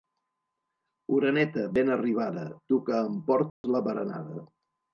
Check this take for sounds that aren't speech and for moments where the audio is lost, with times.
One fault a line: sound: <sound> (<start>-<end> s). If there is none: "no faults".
sound: dropout (3.5-3.6 s)